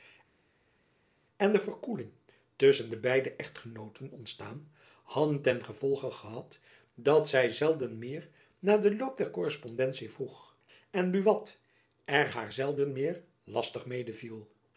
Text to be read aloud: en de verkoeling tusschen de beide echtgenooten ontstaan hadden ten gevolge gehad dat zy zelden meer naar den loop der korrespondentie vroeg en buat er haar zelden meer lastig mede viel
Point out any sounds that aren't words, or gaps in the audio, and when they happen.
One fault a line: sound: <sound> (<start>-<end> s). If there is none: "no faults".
no faults